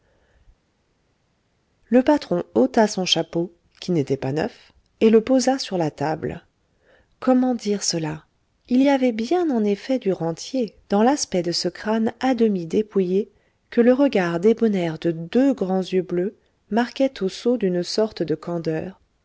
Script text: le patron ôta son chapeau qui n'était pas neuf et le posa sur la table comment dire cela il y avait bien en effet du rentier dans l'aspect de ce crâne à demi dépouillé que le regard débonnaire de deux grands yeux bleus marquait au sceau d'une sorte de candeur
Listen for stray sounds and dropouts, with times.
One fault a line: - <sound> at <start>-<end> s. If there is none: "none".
none